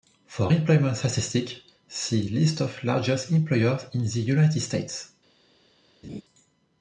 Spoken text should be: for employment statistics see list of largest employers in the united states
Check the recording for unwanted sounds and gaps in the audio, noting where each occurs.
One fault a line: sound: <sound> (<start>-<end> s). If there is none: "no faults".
sound: laugh (6.0-6.2 s)